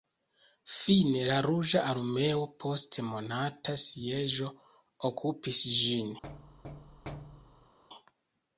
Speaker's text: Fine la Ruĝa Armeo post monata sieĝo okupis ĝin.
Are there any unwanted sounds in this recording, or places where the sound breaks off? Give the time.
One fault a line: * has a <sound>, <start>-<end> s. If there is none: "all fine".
* has a thud, 6.2-7.8 s